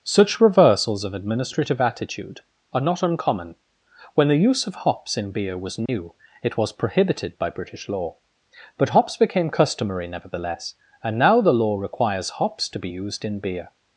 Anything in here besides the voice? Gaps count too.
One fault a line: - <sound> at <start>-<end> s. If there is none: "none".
- dropout at 5.9-5.9 s